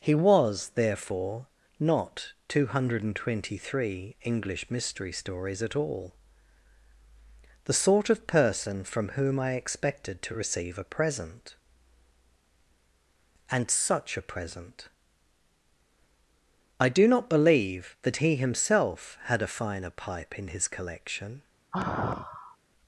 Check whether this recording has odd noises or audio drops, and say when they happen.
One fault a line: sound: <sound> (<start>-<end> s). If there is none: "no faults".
sound: sigh (21.7-22.6 s)